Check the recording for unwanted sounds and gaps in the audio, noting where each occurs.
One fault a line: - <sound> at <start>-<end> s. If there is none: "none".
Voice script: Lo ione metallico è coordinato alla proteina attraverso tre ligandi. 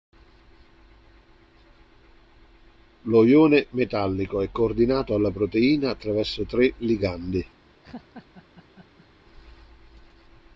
- laugh at 7.8-9.1 s